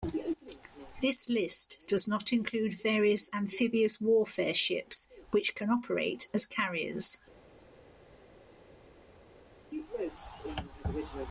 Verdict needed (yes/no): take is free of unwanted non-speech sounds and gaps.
yes